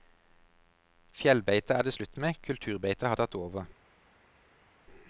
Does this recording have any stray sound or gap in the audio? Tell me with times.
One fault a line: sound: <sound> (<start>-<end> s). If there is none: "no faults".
no faults